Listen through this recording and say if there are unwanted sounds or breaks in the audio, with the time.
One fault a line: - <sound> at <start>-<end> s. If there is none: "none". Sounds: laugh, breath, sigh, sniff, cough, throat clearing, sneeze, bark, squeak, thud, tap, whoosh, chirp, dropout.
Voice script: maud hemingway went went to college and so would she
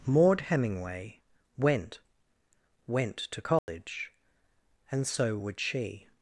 - dropout at 3.6-3.7 s